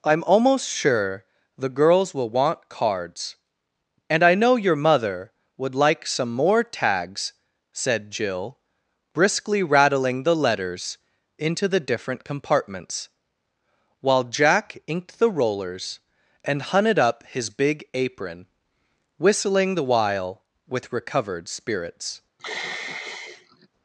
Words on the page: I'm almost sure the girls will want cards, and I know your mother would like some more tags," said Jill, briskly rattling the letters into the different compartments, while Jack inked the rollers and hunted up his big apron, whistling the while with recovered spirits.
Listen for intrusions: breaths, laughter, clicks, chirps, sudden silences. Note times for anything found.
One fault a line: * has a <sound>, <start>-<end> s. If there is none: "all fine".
* has a sigh, 22.4-23.7 s